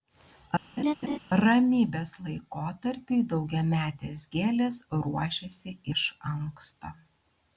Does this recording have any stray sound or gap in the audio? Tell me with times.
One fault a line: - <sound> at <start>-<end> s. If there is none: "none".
- laugh at 0.8-1.2 s